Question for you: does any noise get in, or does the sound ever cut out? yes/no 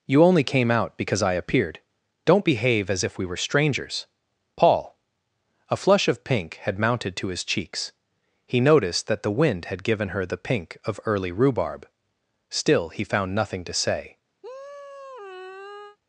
yes